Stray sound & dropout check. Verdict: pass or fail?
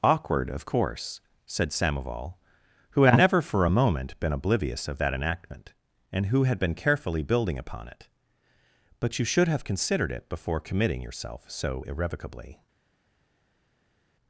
pass